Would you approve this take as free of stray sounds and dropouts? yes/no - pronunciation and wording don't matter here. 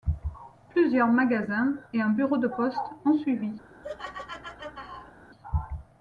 no